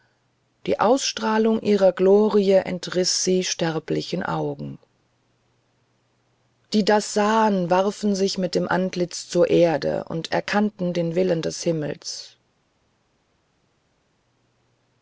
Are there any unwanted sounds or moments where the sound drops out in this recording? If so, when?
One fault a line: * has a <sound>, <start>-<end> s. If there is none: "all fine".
all fine